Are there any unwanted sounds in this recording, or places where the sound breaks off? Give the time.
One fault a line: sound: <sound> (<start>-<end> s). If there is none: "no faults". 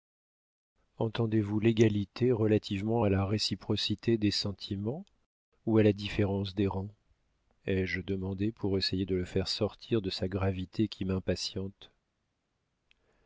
no faults